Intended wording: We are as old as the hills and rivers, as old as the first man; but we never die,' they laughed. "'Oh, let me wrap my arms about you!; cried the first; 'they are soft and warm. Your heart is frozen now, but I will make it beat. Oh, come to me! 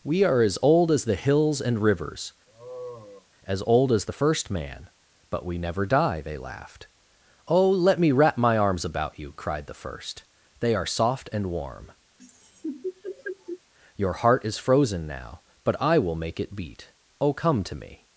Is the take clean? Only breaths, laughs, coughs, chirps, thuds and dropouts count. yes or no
no